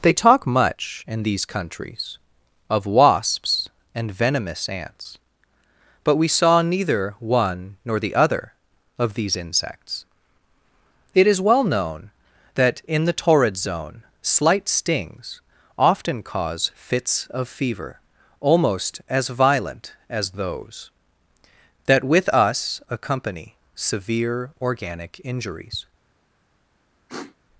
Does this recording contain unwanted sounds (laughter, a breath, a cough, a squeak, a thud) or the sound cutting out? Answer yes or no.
yes